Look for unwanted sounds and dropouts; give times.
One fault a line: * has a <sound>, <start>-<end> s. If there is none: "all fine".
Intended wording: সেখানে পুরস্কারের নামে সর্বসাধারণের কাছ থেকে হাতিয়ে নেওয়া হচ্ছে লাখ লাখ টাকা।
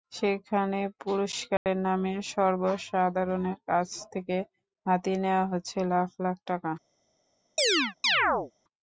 * has a dropout, 1.6-1.7 s
* has a chirp, 7.6-8.5 s